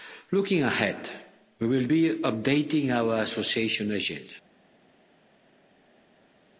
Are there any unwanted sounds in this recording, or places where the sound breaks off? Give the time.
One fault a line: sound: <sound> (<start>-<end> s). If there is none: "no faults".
no faults